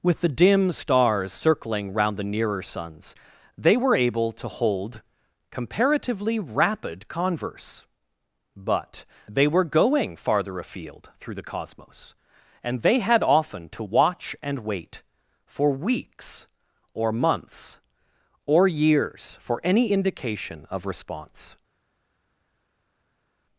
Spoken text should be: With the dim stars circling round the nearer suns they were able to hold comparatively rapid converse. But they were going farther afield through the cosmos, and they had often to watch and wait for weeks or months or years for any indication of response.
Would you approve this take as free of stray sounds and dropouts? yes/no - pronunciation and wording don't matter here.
yes